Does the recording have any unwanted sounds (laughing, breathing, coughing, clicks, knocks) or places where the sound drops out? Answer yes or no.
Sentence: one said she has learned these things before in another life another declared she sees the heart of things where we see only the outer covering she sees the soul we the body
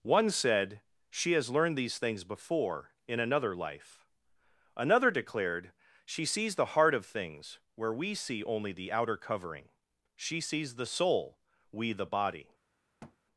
yes